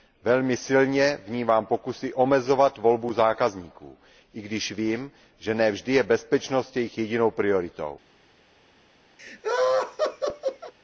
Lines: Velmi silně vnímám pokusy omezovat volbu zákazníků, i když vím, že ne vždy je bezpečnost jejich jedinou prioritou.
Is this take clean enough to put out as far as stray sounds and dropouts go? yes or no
no